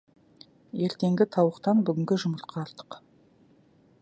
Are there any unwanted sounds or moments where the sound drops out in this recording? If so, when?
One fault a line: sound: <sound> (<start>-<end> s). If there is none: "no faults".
no faults